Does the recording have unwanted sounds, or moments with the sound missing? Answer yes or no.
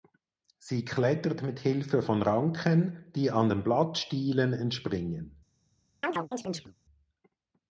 yes